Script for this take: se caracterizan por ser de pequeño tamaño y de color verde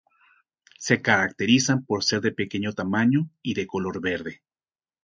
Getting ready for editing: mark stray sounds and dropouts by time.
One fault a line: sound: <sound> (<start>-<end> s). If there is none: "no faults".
no faults